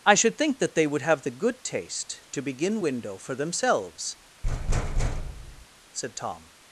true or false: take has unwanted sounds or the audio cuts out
true